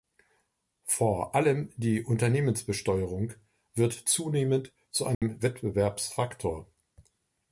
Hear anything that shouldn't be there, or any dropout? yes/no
yes